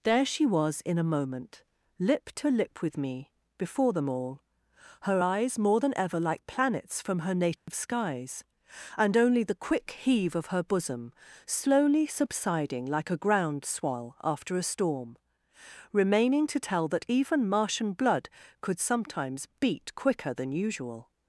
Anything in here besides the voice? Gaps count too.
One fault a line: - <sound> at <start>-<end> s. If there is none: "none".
- dropout at 7.6-7.7 s